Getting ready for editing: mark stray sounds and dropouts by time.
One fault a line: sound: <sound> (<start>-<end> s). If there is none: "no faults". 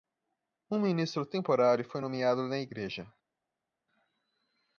no faults